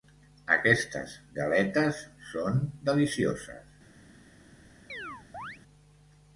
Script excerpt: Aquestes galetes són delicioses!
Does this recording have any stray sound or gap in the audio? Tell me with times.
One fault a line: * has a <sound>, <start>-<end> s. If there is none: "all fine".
* has a chirp, 4.9-5.6 s